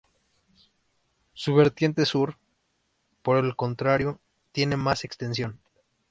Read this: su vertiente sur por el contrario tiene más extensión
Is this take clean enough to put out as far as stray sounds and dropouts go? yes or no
yes